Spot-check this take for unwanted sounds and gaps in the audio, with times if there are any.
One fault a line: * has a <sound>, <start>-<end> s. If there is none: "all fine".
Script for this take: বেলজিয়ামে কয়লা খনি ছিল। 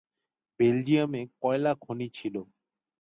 all fine